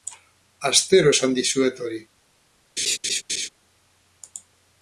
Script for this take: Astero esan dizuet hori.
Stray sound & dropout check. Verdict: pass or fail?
fail